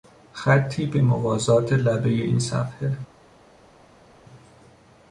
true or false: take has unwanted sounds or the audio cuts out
false